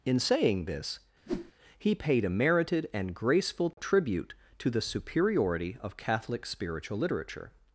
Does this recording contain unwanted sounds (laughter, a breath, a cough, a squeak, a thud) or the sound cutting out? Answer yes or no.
yes